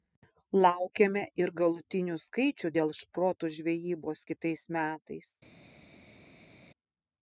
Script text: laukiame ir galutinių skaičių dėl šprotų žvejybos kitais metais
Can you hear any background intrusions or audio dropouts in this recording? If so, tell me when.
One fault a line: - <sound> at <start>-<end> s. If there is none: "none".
none